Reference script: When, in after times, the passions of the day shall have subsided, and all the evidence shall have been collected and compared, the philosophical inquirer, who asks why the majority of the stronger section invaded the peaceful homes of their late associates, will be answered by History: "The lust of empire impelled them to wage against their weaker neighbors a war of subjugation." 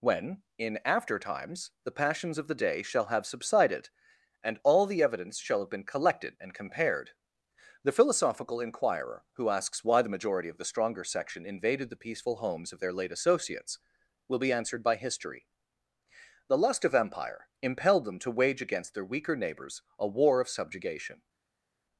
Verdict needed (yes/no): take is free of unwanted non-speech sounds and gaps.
yes